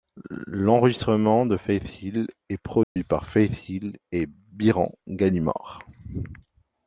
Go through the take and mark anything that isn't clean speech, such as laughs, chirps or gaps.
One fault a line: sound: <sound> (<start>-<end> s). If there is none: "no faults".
sound: dropout (2.8-3.0 s)